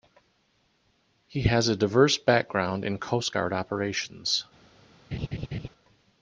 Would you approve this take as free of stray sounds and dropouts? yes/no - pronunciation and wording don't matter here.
no